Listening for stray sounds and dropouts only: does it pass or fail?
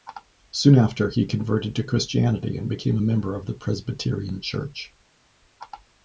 pass